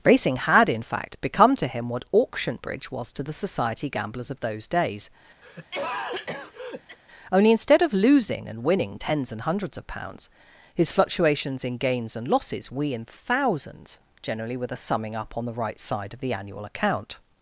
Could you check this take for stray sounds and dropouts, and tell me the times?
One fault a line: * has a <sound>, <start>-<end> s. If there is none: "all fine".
* has a cough, 5.4-7.0 s